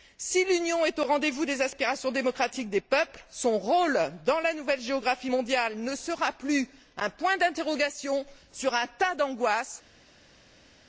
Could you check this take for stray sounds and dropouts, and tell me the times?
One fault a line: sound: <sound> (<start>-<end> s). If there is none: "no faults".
no faults